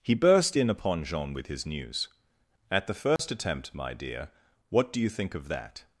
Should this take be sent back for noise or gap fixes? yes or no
yes